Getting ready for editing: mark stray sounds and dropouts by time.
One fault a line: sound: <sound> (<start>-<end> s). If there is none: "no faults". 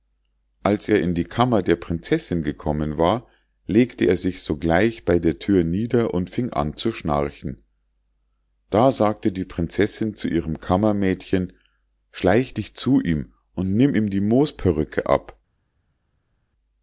no faults